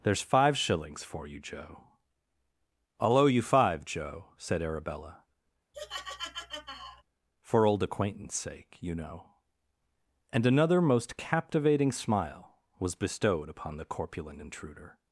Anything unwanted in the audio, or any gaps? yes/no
yes